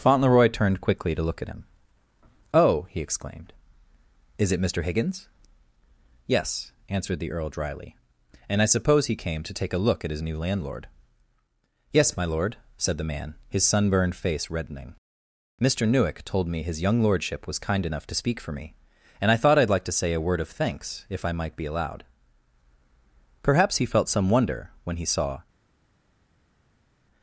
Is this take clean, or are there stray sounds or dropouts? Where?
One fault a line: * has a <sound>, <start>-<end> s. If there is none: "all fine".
all fine